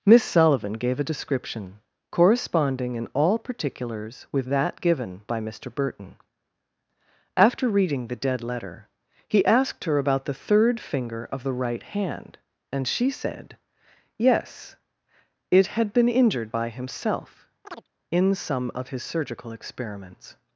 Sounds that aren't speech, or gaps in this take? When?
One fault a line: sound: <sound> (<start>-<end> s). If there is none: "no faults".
sound: chirp (17.6-17.9 s)